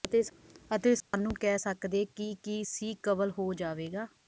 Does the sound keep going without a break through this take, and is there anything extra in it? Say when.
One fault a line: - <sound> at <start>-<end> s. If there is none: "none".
- dropout at 1.0-1.1 s